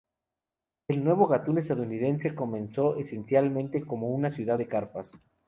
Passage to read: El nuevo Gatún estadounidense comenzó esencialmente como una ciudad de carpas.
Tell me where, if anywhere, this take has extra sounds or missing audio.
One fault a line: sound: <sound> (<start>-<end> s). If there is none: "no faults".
no faults